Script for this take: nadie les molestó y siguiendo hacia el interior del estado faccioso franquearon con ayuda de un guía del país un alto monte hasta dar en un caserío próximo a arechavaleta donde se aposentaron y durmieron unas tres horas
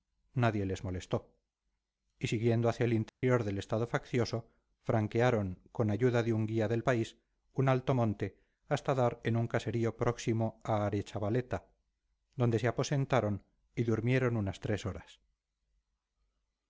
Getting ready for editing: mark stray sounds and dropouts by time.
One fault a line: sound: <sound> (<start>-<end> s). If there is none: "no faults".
sound: dropout (3.1-3.2 s)